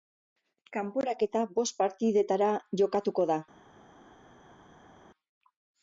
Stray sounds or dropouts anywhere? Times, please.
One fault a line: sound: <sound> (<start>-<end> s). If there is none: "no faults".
no faults